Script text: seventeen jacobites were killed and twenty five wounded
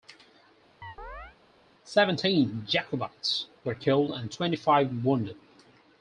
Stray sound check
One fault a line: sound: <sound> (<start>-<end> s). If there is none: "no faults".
sound: chirp (0.8-1.4 s)